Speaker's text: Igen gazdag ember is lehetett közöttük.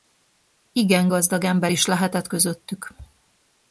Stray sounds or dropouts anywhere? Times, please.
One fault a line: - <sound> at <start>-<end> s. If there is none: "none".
none